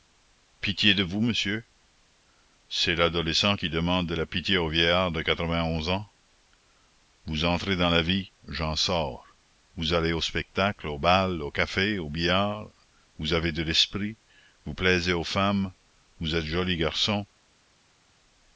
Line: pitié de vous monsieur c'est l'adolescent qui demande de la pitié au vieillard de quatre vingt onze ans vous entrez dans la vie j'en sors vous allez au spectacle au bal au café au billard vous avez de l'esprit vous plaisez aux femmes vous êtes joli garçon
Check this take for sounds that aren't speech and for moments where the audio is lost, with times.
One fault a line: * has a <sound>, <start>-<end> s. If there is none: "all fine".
all fine